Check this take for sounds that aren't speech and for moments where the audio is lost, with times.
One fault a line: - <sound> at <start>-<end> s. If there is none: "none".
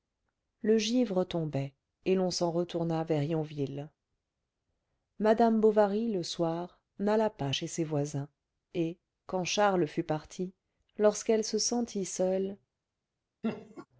- laugh at 13.4-13.9 s